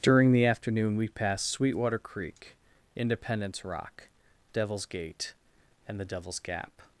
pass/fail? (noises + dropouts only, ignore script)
pass